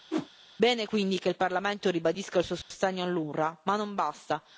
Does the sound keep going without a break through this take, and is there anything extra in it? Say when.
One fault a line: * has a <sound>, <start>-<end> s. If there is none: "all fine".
* has a whoosh, 0.1-0.3 s
* has a dropout, 2.6-2.7 s